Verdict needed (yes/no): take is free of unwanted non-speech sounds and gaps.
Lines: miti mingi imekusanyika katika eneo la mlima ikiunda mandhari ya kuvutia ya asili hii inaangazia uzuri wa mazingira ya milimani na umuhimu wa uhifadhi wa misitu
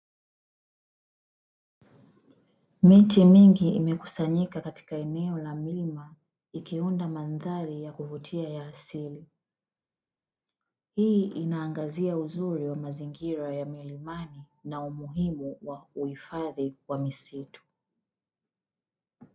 yes